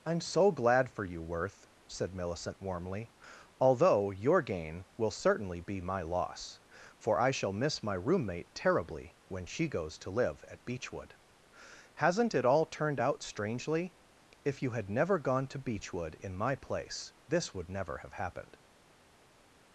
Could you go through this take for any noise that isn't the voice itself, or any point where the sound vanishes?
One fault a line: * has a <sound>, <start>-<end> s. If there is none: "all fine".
all fine